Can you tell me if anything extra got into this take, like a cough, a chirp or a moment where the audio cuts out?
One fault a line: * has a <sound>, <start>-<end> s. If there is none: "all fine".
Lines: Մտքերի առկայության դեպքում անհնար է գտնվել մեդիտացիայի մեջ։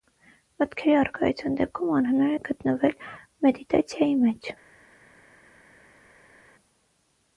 all fine